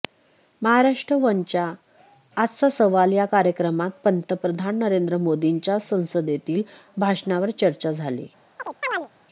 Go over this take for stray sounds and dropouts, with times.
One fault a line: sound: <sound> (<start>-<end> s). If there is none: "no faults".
sound: chirp (8.6-9.1 s)